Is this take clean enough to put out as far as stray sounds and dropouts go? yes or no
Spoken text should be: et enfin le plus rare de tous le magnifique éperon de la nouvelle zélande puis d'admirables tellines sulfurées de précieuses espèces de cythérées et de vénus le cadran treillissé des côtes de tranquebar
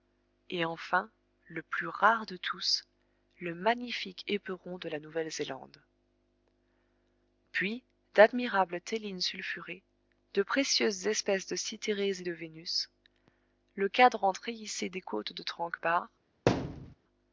no